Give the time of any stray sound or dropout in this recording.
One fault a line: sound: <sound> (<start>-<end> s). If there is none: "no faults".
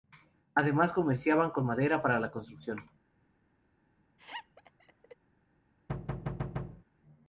sound: laugh (4.2-5.2 s)
sound: thud (5.9-6.8 s)